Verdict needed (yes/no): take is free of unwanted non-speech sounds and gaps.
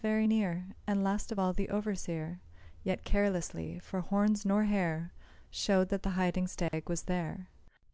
no